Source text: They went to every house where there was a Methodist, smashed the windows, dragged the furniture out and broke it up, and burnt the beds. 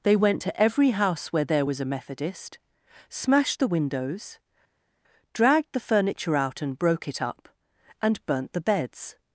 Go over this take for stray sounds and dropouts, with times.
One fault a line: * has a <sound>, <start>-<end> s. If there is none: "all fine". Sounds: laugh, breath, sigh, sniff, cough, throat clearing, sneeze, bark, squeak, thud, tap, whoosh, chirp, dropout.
all fine